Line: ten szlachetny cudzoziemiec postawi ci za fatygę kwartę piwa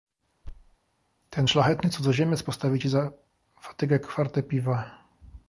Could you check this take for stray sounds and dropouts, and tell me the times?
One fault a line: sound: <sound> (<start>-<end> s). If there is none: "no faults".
sound: thud (0.4-0.8 s)